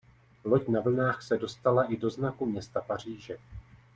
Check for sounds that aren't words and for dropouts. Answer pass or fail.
pass